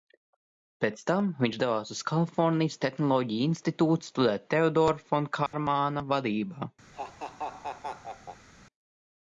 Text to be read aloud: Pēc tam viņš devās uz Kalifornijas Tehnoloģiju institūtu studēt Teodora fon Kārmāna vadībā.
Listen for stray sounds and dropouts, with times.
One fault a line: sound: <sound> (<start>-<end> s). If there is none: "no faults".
sound: dropout (5.5-5.5 s)
sound: laugh (6.9-8.5 s)